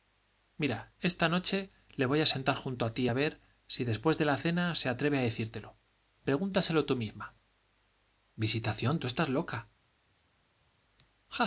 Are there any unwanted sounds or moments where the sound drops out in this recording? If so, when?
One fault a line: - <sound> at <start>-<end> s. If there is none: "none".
none